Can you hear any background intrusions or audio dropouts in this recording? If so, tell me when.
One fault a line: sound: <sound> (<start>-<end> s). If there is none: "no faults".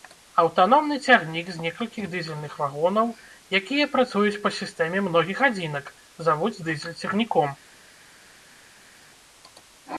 no faults